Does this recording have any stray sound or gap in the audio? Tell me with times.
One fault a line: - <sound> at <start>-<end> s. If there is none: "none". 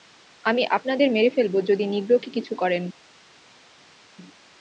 none